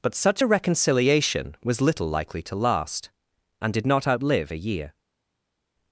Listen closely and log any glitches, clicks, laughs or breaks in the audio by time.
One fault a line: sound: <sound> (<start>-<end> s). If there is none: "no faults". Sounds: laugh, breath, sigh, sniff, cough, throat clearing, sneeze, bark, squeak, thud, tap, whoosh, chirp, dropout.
no faults